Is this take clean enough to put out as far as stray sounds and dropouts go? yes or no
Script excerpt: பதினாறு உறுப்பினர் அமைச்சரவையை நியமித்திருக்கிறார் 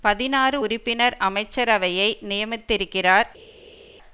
yes